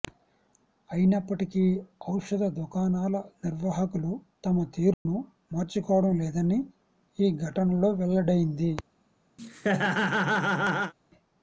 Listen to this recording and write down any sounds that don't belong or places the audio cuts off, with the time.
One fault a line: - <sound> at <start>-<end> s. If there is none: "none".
- dropout at 4.9-5.1 s
- laugh at 9.4-10.9 s